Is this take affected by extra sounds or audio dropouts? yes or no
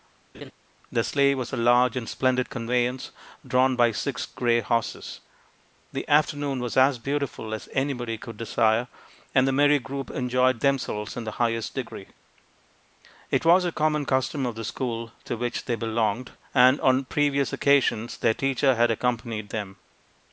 yes